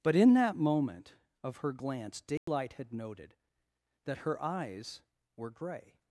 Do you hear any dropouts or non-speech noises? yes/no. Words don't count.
yes